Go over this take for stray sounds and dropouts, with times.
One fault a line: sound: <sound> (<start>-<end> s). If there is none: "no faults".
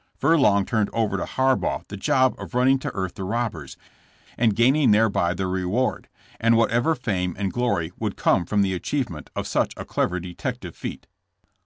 no faults